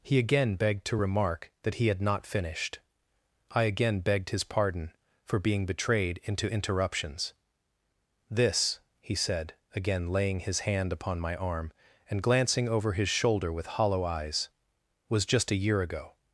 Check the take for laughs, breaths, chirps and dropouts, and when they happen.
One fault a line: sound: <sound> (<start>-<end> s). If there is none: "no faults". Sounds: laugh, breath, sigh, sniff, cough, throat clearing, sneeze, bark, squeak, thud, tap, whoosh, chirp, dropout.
no faults